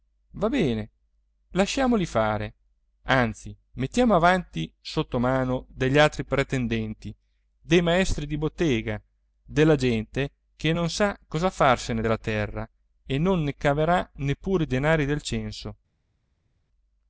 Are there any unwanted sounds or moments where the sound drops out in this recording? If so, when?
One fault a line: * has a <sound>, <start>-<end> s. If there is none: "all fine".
all fine